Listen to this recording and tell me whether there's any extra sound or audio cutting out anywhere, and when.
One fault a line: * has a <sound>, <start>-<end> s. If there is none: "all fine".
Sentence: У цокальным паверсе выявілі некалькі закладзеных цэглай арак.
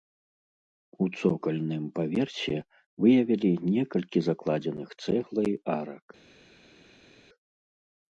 all fine